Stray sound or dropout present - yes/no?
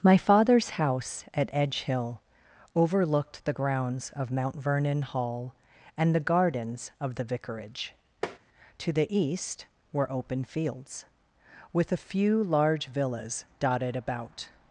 yes